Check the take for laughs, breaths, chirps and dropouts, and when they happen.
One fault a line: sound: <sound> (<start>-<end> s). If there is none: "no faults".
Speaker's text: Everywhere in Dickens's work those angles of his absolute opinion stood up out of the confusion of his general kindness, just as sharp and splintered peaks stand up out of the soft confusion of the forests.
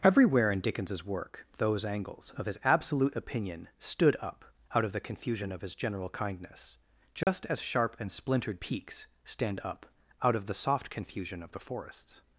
sound: dropout (7.2-7.3 s)